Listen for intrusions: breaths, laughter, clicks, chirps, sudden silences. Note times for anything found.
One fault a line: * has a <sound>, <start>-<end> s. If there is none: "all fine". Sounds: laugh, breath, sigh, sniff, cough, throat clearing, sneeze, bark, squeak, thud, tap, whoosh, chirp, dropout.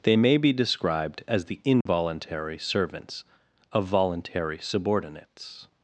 * has a dropout, 1.8-1.9 s